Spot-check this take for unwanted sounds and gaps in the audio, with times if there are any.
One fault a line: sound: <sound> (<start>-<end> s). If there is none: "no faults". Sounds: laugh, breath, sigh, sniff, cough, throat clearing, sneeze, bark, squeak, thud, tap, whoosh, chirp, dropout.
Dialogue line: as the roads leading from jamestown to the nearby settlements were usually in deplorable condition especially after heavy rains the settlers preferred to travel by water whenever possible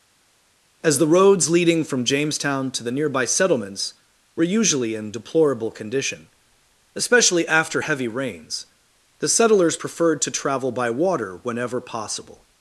no faults